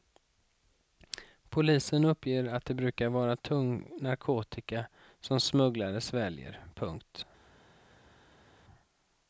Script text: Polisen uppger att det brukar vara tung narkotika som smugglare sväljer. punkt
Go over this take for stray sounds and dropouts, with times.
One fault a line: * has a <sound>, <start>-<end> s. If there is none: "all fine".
all fine